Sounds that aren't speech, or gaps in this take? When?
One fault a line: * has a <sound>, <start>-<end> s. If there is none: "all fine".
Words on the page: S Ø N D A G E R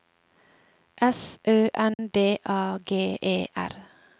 * has a dropout, 1.9-2.0 s